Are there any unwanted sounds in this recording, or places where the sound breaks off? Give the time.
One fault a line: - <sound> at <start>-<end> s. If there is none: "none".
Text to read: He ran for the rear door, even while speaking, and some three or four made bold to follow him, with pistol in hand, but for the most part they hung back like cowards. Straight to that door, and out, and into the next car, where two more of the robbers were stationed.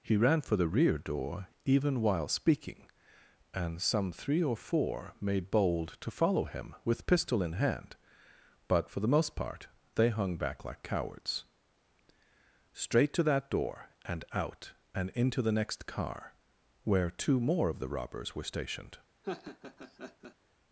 - laugh at 19.2-20.4 s